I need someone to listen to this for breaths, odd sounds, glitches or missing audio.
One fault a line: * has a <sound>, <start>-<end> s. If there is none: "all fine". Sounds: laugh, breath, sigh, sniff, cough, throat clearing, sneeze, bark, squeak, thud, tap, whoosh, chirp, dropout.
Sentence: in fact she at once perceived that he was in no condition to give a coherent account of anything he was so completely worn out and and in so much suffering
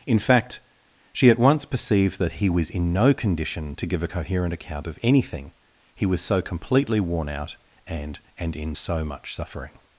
all fine